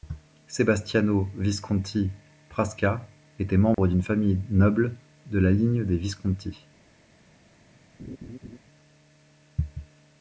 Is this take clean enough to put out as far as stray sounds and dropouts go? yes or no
no